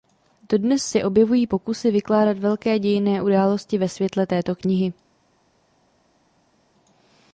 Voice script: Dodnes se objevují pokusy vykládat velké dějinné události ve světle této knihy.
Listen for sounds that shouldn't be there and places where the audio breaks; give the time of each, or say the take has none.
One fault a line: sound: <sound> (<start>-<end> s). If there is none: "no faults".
no faults